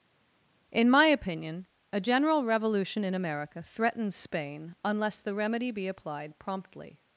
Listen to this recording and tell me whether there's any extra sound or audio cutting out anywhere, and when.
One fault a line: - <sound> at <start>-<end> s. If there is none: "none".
none